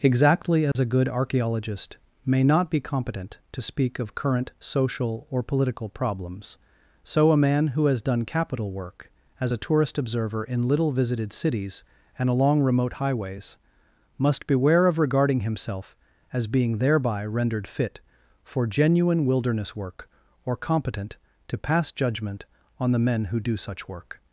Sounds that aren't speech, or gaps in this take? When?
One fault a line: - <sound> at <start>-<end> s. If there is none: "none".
- dropout at 0.7-0.8 s